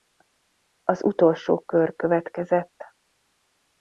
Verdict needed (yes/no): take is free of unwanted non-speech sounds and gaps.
yes